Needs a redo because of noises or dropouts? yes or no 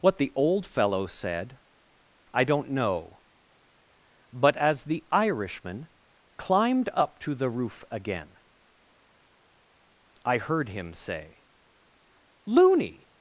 no